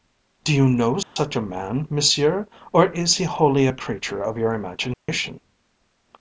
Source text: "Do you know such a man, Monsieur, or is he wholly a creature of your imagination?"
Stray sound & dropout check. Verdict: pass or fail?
fail